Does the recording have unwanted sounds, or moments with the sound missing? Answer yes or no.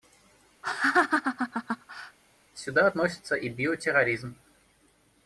yes